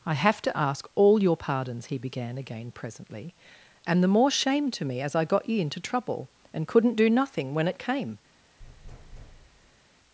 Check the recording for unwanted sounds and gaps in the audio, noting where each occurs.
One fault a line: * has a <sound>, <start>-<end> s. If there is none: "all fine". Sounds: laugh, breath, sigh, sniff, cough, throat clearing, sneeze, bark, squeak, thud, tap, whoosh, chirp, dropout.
* has a thud, 8.6-9.8 s